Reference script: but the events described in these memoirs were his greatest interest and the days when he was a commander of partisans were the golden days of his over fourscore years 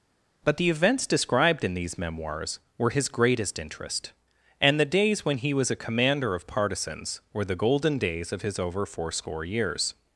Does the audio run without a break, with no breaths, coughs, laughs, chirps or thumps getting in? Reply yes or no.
yes